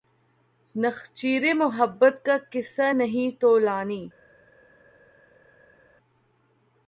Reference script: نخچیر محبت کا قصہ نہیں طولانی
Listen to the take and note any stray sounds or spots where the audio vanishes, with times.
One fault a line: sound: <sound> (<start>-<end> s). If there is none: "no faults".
no faults